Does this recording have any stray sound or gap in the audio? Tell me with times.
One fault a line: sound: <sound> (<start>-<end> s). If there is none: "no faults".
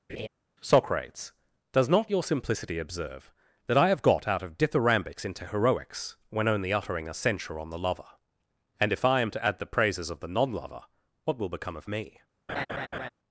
sound: laugh (0.1-0.3 s)
sound: laugh (12.5-13.1 s)